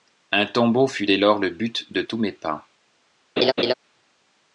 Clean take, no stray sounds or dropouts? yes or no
no